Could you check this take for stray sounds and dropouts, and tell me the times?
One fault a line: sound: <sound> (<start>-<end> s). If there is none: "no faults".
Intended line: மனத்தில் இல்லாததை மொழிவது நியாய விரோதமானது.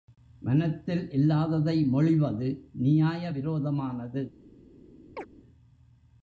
sound: chirp (5.2-5.3 s)